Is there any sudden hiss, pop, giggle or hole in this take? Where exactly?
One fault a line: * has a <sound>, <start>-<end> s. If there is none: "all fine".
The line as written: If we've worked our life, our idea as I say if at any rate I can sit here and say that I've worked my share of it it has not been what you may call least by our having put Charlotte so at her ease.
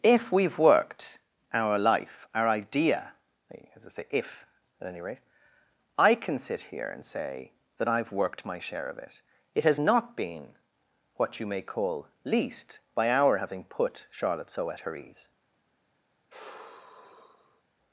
* has a sigh, 16.3-17.6 s